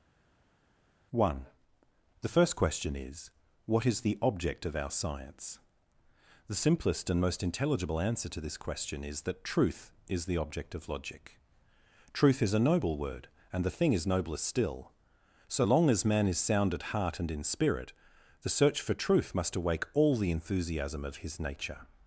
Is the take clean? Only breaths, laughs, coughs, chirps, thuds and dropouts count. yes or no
yes